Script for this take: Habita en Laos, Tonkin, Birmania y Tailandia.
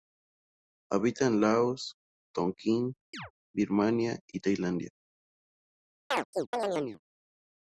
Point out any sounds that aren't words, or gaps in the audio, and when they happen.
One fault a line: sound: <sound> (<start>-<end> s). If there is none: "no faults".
sound: chirp (3.1-3.3 s)
sound: chirp (6.1-7.0 s)